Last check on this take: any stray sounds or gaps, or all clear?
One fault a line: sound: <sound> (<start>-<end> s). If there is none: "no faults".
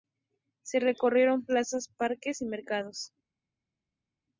no faults